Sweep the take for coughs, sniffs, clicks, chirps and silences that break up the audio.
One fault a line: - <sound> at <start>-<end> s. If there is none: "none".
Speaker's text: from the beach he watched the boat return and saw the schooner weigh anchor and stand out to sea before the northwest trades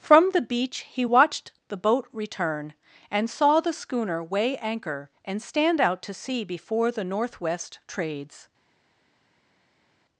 none